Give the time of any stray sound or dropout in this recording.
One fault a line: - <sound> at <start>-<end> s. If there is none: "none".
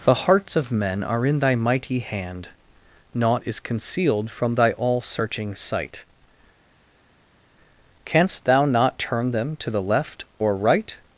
none